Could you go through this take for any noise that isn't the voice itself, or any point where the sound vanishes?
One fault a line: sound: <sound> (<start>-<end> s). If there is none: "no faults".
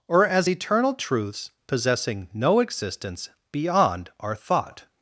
no faults